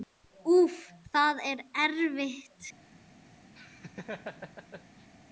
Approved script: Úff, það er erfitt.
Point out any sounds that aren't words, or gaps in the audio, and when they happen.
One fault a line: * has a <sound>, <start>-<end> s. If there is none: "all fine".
* has a laugh, 3.6-5.1 s